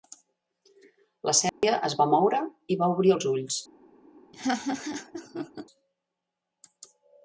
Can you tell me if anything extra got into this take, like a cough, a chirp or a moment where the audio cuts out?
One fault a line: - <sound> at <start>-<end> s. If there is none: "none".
- dropout at 1.5-1.6 s
- laugh at 4.3-5.7 s